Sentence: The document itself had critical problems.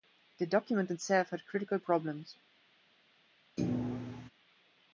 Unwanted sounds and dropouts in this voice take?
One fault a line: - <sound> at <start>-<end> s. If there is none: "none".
- thud at 3.6-4.3 s